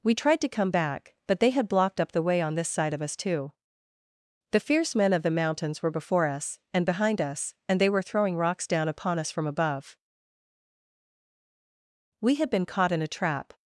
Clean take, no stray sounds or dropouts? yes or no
yes